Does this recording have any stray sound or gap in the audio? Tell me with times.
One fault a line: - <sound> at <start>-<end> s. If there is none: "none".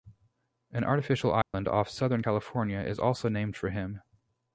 - dropout at 1.4-1.5 s